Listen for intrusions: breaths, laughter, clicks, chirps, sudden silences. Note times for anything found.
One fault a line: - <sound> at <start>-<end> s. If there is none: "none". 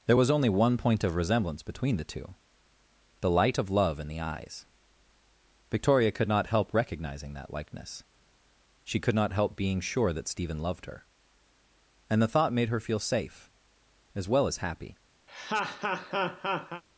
- laugh at 15.3-16.8 s